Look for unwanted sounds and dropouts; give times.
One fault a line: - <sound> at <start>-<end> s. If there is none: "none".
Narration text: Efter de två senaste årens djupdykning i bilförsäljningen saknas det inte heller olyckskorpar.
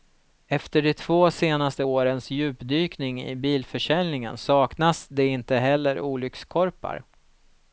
none